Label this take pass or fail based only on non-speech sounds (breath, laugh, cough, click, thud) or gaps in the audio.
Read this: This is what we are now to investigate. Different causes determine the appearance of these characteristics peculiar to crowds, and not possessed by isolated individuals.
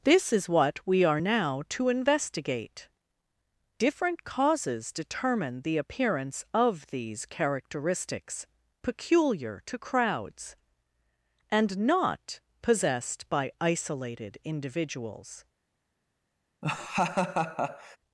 fail